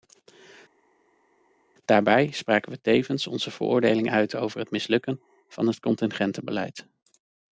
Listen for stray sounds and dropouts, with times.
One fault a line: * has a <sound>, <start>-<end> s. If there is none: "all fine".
all fine